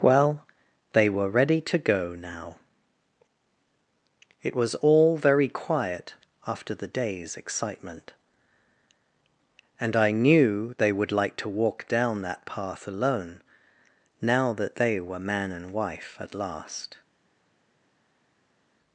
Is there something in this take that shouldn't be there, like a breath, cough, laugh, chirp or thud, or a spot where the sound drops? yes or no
no